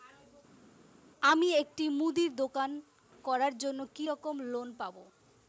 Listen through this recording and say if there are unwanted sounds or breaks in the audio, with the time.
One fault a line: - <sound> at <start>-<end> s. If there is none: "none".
none